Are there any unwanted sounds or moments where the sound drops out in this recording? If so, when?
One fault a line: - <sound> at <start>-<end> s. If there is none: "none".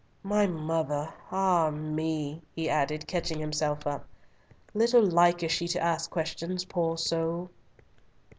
none